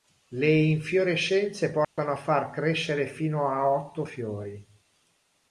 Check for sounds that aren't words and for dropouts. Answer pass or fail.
fail